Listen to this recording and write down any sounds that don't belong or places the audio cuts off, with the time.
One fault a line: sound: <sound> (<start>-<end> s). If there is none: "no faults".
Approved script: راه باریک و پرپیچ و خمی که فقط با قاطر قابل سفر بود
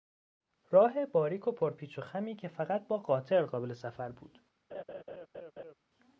sound: laugh (4.7-5.7 s)